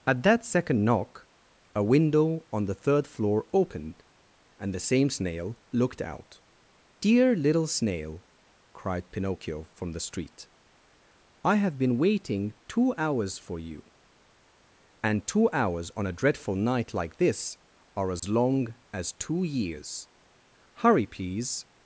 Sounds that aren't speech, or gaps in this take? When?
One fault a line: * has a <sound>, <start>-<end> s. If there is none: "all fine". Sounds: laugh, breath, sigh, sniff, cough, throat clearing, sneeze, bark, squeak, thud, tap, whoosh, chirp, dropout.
* has a dropout, 18.2-18.2 s